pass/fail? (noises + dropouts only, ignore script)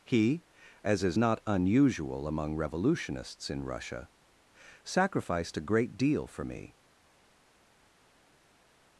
pass